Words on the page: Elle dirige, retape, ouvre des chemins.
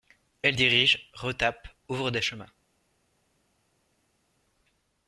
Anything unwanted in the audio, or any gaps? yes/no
no